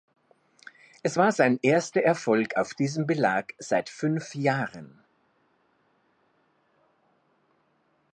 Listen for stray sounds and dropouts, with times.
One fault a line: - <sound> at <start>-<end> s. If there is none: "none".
none